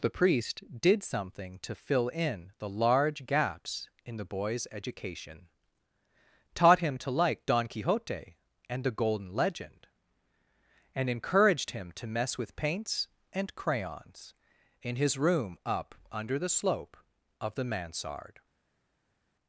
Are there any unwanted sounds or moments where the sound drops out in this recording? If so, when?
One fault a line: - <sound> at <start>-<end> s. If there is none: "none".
none